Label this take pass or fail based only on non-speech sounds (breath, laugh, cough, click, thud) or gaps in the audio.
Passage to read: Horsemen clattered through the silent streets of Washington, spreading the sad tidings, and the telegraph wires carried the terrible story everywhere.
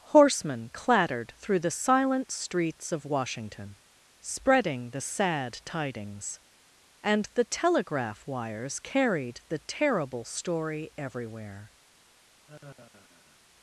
fail